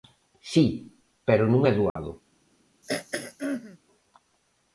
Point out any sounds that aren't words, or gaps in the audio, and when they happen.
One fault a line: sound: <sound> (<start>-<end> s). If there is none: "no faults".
sound: dropout (1.9-2.0 s)
sound: throat clearing (2.8-3.8 s)